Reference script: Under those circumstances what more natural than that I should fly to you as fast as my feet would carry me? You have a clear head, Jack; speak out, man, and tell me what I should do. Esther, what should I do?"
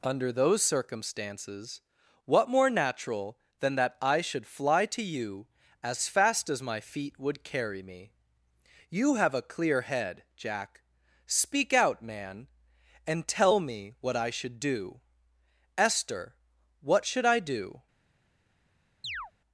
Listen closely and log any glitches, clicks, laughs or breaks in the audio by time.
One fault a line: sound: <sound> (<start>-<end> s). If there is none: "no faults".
sound: chirp (19.0-19.3 s)